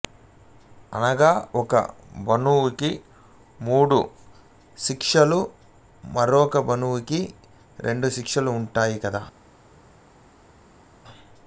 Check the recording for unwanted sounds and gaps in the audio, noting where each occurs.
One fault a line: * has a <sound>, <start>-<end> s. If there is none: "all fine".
all fine